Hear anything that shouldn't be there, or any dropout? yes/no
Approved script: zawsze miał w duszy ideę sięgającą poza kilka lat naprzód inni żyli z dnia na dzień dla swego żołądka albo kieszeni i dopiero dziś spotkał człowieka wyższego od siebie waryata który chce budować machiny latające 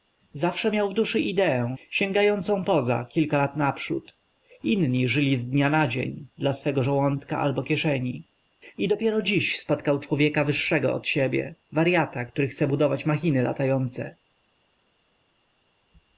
no